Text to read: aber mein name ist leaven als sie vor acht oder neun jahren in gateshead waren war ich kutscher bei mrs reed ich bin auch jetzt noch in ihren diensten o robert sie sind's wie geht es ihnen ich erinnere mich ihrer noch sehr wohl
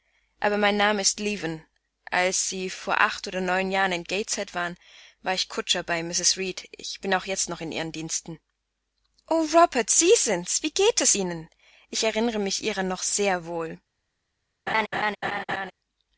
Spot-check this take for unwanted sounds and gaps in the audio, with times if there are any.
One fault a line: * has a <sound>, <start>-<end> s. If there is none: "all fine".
* has a laugh, 14.7-15.7 s